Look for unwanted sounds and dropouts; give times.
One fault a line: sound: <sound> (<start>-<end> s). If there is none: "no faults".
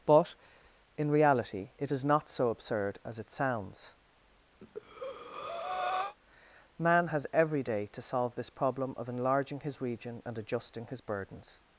sound: breath (4.6-6.2 s)